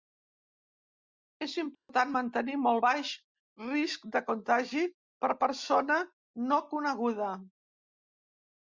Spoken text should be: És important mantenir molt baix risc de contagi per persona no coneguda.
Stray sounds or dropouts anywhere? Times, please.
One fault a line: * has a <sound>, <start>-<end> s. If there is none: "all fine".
* has a dropout, 1.7-1.9 s